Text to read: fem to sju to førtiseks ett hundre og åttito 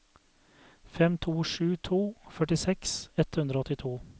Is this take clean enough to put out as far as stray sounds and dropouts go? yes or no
yes